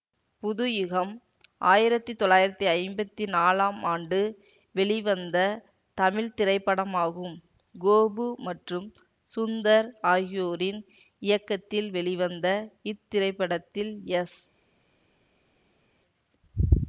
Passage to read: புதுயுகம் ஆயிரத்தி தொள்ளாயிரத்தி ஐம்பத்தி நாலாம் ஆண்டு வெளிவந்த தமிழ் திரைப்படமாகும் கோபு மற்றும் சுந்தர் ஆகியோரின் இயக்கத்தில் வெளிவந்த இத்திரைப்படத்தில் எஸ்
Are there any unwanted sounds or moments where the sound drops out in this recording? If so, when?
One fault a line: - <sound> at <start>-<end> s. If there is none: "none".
none